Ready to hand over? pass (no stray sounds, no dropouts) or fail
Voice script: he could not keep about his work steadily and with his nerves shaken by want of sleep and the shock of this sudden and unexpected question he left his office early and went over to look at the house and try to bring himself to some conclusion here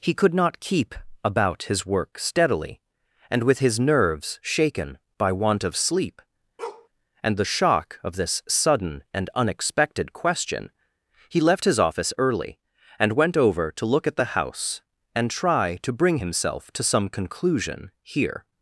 fail